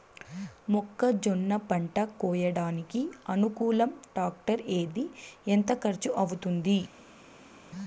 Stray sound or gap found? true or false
false